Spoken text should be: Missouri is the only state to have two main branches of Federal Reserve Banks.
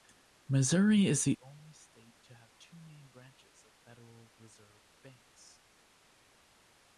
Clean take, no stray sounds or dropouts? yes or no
yes